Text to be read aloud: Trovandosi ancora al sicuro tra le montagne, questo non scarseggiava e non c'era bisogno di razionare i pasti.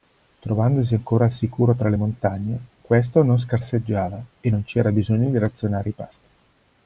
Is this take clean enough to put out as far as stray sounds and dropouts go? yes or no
yes